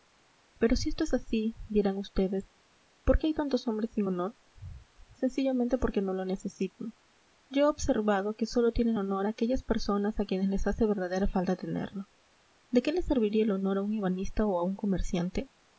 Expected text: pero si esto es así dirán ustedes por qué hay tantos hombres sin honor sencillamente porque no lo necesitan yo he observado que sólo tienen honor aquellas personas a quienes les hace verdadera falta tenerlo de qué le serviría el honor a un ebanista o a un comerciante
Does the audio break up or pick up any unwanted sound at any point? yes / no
no